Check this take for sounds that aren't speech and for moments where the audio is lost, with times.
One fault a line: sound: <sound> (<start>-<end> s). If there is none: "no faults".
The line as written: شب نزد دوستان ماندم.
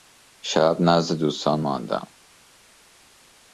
no faults